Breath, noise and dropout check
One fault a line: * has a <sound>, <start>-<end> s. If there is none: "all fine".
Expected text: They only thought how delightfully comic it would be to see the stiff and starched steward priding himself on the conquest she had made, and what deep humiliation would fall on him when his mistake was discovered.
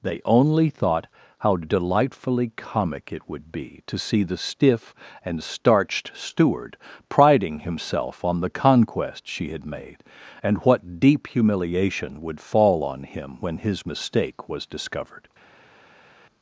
all fine